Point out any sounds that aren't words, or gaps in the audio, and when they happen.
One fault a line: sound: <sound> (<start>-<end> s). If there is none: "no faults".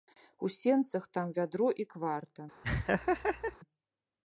sound: laugh (2.6-3.6 s)